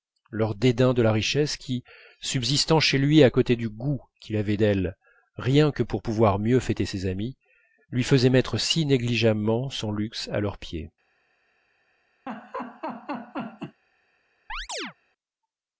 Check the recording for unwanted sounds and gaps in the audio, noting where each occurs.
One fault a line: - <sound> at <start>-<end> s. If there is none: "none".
- laugh at 12.3-13.8 s
- chirp at 14.5-14.9 s